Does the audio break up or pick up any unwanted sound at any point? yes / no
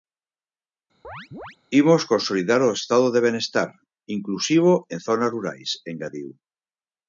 yes